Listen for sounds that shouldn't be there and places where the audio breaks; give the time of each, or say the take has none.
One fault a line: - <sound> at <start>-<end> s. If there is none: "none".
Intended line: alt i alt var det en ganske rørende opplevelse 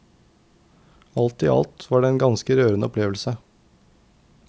none